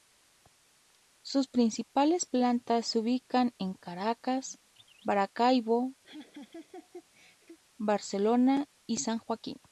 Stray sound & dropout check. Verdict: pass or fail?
fail